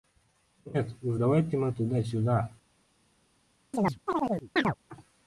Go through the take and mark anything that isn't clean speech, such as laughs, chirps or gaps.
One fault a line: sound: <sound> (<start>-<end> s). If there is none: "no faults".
sound: chirp (3.7-4.8 s)